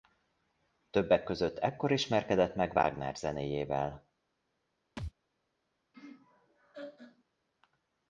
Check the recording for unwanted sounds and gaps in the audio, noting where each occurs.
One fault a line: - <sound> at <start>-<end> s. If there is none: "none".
- thud at 5.0-5.1 s
- laugh at 5.9-7.2 s